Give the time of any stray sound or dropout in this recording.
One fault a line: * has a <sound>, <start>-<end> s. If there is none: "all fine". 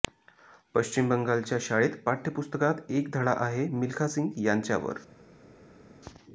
all fine